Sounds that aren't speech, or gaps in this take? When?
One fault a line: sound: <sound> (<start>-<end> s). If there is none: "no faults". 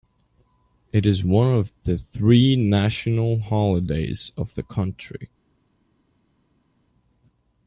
no faults